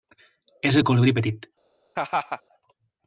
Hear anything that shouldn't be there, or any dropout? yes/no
yes